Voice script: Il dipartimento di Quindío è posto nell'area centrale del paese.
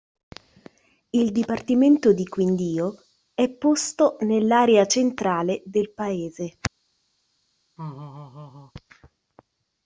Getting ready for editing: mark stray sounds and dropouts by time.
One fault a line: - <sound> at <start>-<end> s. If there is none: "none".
- laugh at 7.8-8.7 s